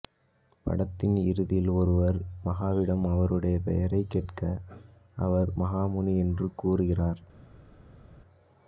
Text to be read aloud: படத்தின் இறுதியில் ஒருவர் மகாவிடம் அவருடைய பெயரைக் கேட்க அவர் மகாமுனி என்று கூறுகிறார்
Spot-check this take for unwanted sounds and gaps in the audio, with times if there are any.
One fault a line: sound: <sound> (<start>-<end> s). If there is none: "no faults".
no faults